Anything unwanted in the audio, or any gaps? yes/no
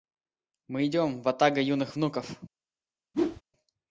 yes